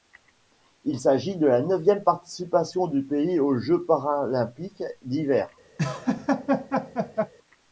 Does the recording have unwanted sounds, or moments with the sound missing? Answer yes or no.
yes